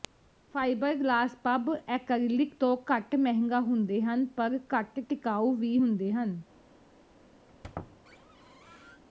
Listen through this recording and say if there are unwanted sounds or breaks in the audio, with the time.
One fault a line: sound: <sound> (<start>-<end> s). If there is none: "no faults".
sound: squeak (7.5-9.0 s)